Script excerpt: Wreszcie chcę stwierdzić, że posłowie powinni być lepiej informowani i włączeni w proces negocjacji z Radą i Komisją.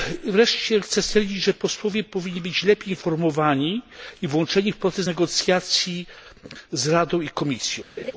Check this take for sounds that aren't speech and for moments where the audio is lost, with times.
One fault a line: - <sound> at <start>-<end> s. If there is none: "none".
- laugh at 8.0-8.1 s